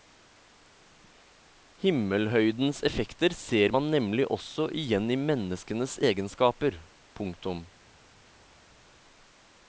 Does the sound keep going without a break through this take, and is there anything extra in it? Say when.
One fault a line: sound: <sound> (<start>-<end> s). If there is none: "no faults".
no faults